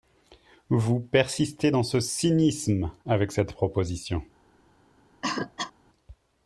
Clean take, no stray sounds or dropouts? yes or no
no